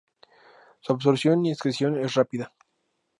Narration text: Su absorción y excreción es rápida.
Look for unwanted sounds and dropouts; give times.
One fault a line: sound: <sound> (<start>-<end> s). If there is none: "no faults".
no faults